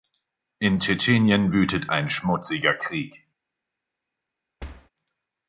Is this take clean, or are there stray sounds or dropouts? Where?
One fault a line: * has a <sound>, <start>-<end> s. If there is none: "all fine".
* has a thud, 4.6-4.9 s